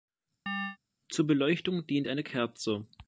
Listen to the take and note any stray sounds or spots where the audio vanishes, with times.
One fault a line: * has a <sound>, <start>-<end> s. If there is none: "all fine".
* has a chirp, 0.5-0.8 s